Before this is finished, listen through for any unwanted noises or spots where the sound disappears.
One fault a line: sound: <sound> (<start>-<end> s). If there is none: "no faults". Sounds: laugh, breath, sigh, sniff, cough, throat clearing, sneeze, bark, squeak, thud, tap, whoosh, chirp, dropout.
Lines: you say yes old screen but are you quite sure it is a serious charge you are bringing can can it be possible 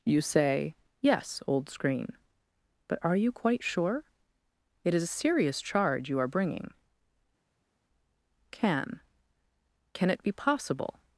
no faults